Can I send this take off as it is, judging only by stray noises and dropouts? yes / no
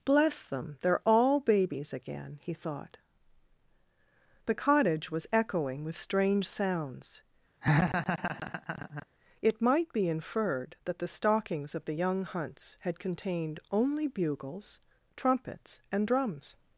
no